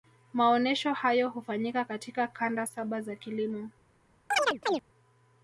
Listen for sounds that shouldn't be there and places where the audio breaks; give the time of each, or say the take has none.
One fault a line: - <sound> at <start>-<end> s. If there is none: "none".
- chirp at 4.3-4.8 s